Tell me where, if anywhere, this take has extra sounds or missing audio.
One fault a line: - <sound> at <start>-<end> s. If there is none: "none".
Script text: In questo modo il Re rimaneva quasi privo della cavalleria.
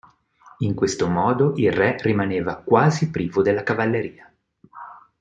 none